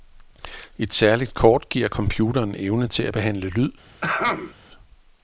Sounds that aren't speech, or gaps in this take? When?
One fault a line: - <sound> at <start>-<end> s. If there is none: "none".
- throat clearing at 4.0-4.5 s